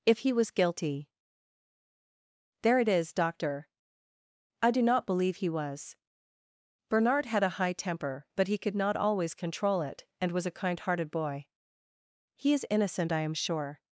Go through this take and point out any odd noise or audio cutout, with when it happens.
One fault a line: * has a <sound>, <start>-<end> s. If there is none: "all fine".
all fine